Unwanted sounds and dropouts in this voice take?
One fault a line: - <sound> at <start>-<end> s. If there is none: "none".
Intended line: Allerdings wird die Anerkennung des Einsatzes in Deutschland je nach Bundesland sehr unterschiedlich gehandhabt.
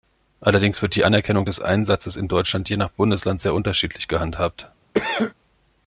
- cough at 4.9-5.3 s